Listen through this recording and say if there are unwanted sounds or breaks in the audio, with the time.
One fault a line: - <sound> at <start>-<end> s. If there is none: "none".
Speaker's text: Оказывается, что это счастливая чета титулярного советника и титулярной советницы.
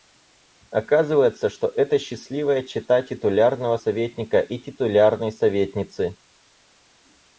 none